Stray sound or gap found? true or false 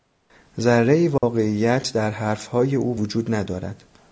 true